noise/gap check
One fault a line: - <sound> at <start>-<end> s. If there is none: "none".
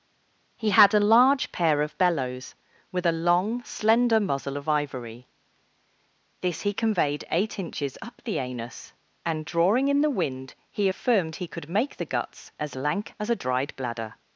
none